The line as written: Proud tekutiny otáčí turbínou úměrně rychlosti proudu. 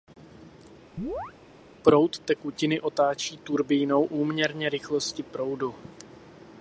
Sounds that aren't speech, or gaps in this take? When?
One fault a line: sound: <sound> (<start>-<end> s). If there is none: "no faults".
sound: chirp (1.0-1.3 s)